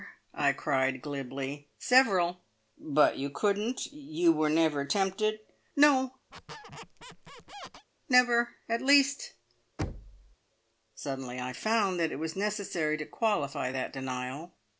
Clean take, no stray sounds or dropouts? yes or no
no